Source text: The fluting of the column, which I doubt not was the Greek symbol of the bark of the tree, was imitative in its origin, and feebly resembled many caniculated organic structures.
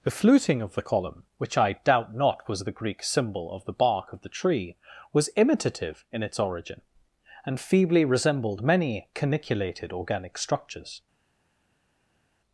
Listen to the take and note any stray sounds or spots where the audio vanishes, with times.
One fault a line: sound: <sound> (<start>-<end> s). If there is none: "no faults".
no faults